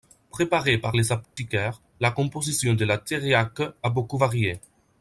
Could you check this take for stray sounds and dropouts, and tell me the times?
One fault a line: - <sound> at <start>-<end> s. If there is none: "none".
- dropout at 1.2-1.4 s